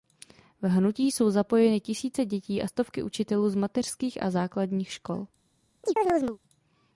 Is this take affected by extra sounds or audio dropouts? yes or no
yes